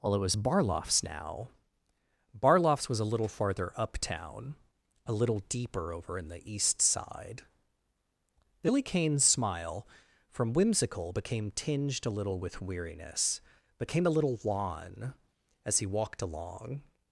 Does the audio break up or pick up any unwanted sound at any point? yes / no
no